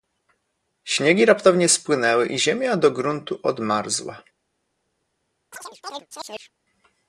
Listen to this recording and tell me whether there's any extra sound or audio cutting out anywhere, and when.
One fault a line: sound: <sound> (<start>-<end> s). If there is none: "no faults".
sound: chirp (5.5-6.5 s)